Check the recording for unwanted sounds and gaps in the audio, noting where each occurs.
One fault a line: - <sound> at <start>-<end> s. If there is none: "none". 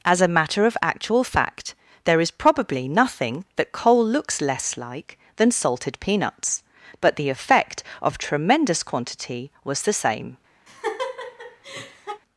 - laugh at 10.7-12.2 s